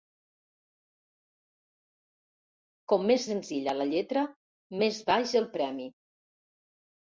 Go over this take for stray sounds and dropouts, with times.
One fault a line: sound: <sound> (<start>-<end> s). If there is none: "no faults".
no faults